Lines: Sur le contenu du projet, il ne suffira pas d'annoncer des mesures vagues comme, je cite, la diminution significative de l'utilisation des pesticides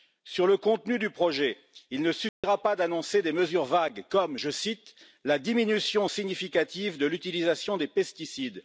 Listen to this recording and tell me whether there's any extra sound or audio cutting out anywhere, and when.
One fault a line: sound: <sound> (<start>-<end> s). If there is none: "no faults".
sound: dropout (2.3-2.4 s)